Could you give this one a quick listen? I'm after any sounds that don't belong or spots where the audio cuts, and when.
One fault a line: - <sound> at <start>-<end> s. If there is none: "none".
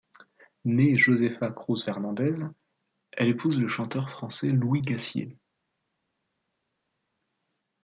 none